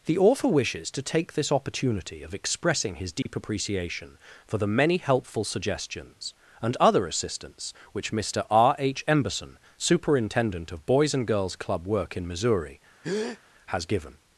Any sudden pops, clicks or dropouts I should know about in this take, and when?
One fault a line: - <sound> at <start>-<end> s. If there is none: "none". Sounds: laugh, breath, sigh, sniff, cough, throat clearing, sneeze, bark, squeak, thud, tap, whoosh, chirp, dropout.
- dropout at 3.2-3.3 s
- breath at 13.0-13.4 s